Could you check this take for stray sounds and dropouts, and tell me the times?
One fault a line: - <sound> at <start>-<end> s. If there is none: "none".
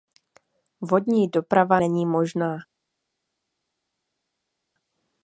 none